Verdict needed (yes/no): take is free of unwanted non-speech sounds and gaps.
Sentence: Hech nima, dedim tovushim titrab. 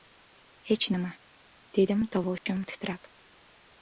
no